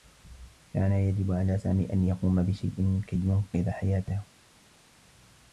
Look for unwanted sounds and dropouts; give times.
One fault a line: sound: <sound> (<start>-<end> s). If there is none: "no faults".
no faults